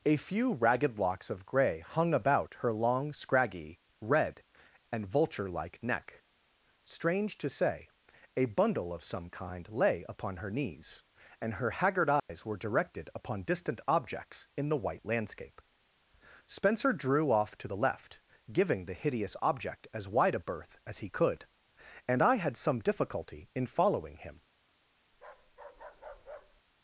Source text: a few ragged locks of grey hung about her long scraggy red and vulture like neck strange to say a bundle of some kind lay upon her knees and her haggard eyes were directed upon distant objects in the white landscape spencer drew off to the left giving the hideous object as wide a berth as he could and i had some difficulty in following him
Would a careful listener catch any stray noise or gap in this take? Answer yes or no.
yes